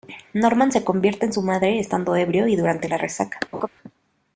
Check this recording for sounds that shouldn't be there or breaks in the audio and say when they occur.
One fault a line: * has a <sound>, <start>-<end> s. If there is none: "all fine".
* has a laugh, 3.5-3.7 s